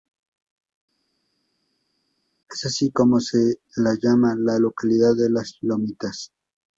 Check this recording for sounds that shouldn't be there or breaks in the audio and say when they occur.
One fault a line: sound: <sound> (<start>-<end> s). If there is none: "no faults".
no faults